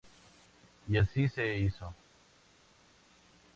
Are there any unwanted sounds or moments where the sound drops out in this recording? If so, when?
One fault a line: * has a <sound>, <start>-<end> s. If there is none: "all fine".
all fine